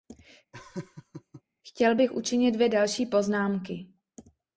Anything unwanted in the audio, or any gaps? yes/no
yes